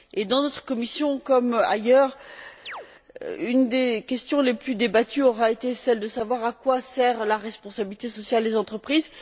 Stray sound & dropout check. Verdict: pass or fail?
fail